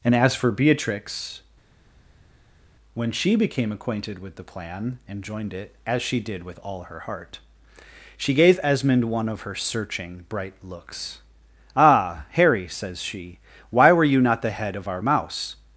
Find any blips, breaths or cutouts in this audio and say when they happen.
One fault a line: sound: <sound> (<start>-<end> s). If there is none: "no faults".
no faults